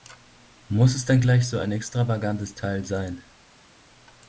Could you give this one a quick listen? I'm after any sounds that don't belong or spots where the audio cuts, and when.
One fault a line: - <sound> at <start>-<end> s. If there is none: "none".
none